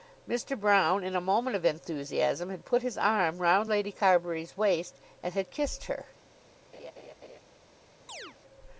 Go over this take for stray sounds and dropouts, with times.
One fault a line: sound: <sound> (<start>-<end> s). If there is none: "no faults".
sound: laugh (6.7-7.4 s)
sound: chirp (8.1-8.4 s)